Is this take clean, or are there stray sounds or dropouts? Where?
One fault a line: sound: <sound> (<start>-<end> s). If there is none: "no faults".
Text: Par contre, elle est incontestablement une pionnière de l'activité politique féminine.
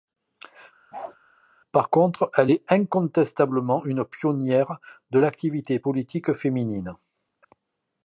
sound: bark (0.9-1.2 s)